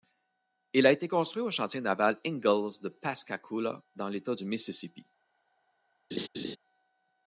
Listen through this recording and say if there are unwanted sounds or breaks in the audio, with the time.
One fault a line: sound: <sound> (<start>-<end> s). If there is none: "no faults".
sound: laugh (6.1-6.6 s)